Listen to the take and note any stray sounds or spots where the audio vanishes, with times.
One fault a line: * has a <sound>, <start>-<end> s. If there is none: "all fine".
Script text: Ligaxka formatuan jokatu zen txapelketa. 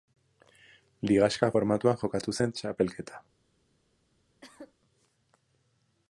* has a cough, 4.4-4.7 s